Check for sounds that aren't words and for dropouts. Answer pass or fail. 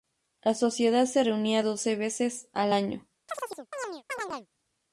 fail